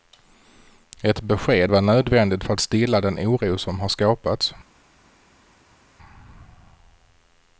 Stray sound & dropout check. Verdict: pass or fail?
pass